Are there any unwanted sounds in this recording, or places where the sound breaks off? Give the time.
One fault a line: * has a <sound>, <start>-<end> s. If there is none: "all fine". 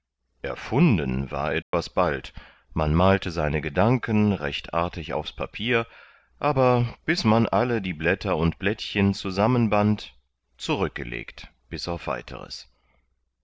* has a dropout, 1.6-1.7 s